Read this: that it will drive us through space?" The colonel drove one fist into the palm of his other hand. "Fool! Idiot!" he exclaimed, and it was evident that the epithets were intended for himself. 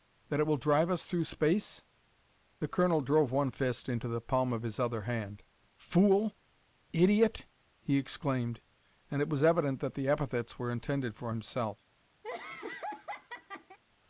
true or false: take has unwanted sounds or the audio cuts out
true